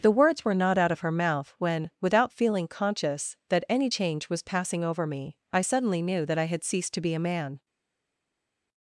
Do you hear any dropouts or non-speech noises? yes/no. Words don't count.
no